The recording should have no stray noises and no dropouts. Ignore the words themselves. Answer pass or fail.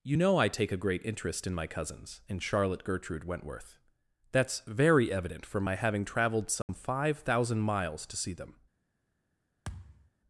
fail